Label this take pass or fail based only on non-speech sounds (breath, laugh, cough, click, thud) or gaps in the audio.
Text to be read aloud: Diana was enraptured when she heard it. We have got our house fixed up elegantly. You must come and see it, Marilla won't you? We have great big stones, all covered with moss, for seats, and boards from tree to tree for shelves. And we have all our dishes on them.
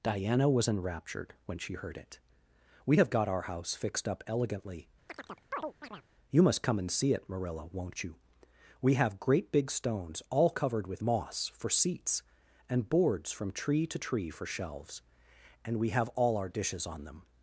fail